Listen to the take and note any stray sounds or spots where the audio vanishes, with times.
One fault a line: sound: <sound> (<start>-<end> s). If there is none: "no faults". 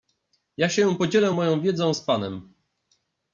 no faults